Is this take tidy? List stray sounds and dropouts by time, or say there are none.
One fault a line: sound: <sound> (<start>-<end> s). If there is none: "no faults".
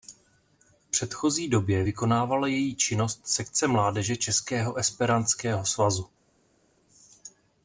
no faults